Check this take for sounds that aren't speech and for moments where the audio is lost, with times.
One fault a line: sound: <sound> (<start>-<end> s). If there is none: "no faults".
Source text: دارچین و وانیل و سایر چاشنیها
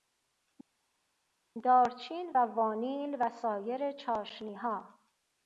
no faults